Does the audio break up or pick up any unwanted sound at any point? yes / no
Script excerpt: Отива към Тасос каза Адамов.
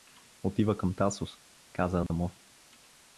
yes